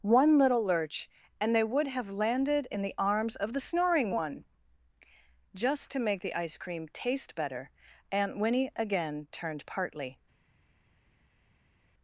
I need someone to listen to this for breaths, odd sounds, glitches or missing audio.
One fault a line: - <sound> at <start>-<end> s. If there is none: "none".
none